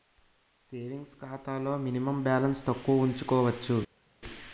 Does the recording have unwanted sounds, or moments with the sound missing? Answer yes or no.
no